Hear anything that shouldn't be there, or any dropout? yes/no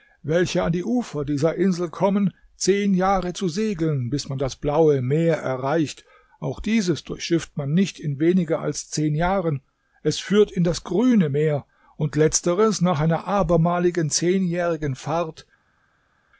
no